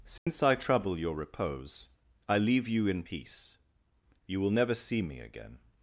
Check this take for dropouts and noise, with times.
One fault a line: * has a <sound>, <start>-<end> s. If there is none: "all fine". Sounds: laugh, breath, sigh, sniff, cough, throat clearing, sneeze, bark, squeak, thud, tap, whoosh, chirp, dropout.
* has a dropout, 0.2-0.3 s